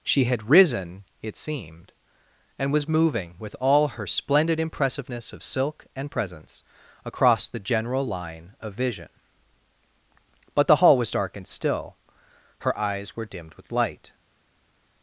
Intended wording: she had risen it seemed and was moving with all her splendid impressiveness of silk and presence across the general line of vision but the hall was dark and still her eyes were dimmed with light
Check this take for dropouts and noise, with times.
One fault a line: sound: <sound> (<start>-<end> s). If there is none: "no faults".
no faults